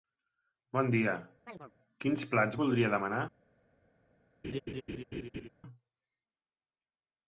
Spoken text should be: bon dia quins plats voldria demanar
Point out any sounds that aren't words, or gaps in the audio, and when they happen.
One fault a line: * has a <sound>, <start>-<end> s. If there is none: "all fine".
* has a chirp, 1.5-1.7 s
* has a laugh, 4.4-5.5 s